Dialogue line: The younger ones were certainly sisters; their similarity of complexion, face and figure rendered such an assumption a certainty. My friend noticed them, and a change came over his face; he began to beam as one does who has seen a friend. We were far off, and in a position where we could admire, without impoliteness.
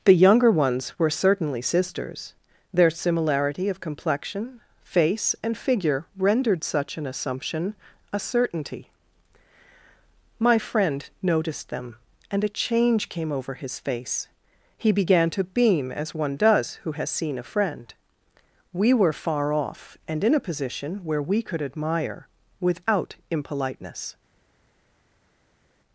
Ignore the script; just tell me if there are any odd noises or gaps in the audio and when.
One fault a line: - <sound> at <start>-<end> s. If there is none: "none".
none